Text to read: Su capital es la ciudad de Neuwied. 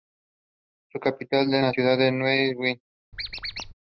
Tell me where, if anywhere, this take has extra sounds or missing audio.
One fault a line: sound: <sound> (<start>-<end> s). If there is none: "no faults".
sound: squeak (3.1-3.7 s)